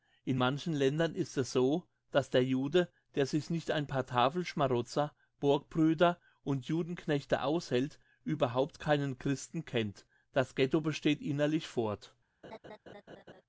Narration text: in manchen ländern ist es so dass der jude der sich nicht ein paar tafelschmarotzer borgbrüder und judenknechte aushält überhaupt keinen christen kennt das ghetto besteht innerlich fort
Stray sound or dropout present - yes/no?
yes